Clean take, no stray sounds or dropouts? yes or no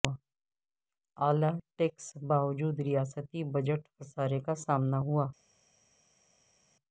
yes